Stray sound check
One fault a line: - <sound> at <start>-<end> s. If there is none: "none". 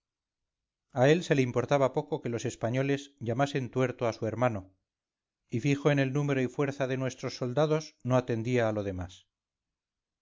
none